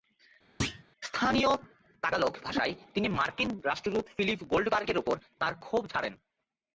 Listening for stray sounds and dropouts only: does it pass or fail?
fail